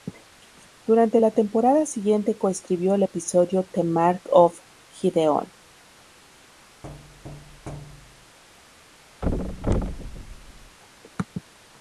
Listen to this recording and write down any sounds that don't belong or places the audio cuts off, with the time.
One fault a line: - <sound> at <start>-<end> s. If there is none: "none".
- thud at 6.8-8.4 s
- thud at 9.2-10.8 s